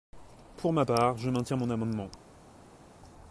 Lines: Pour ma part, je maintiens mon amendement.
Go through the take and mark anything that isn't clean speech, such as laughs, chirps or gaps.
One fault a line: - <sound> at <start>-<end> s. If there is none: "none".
none